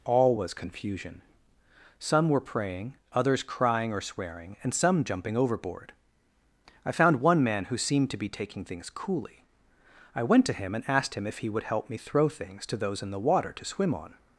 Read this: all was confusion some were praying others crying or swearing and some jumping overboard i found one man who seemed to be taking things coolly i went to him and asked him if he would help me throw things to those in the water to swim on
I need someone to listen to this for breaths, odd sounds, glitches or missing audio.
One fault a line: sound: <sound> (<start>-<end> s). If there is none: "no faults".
no faults